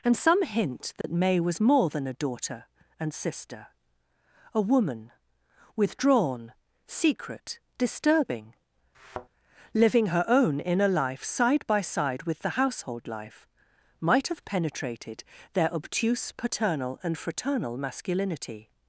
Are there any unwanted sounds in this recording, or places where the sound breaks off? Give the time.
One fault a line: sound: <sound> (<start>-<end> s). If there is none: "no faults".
sound: dropout (1.0-1.0 s)
sound: thud (8.9-9.3 s)